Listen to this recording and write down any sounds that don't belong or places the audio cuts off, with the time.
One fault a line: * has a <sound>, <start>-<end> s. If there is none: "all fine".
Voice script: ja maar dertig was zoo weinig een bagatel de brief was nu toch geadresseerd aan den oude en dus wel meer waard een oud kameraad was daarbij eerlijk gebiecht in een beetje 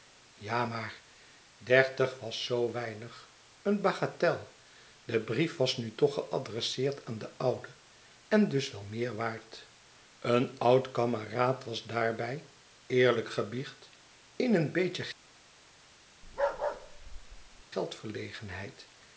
* has a bark, 16.2-17.6 s